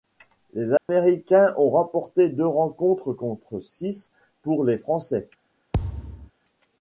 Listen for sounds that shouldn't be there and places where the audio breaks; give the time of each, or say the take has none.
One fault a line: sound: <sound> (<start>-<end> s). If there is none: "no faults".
sound: dropout (0.8-0.9 s)
sound: thud (5.7-6.3 s)